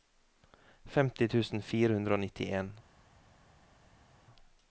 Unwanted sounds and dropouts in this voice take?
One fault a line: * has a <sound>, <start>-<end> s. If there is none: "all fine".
all fine